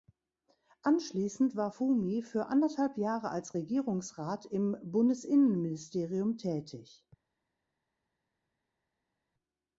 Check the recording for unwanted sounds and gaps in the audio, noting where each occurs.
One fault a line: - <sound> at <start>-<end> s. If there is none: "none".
none